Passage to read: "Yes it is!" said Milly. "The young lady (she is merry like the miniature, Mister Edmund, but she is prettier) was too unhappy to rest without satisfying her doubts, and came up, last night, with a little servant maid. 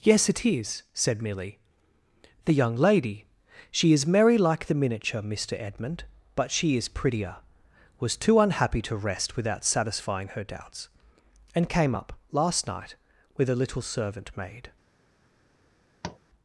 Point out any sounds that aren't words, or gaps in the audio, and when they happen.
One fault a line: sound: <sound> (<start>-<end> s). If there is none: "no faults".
sound: tap (16.0-16.2 s)